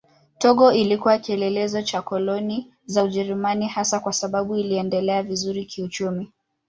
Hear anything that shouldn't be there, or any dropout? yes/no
no